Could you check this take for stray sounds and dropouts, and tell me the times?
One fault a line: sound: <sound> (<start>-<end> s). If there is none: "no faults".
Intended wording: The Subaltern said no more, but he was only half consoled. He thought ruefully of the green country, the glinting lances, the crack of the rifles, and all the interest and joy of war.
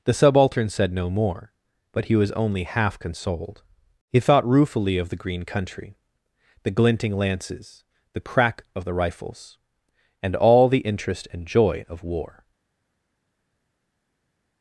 no faults